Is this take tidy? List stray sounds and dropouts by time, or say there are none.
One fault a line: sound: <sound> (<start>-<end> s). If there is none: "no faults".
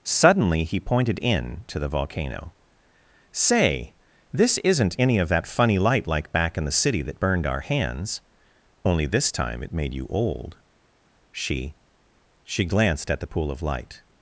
no faults